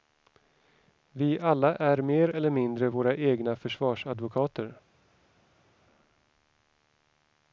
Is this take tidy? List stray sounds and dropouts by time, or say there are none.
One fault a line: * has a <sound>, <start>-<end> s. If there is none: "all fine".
all fine